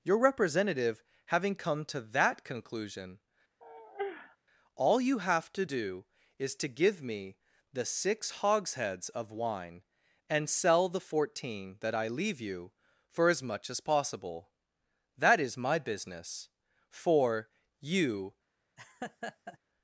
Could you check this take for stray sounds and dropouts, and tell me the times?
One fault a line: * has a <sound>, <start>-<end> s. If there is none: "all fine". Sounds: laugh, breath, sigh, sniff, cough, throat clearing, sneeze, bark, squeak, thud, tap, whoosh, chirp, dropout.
* has a sigh, 3.6-4.4 s
* has a laugh, 18.8-19.6 s